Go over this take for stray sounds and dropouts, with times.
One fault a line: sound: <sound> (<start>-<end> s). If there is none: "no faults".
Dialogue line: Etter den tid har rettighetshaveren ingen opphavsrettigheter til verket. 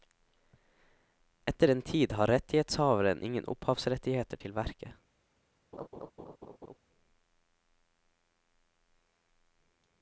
sound: laugh (5.7-6.8 s)